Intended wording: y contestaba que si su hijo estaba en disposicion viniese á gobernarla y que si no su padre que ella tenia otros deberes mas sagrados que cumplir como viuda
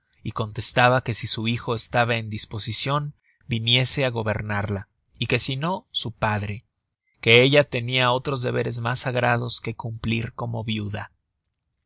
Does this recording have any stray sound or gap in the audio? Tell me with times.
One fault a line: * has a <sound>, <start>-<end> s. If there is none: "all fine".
all fine